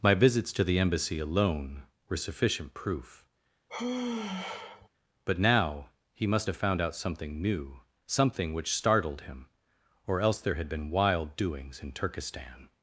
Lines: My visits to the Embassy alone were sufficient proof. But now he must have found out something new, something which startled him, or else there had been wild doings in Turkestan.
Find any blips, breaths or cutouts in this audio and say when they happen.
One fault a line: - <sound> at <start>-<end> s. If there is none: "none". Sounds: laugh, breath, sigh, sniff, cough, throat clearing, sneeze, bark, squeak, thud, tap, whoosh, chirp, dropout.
- sigh at 3.7-4.9 s